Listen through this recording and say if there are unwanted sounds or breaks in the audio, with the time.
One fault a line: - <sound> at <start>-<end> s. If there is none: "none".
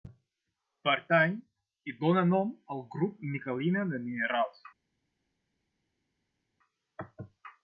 none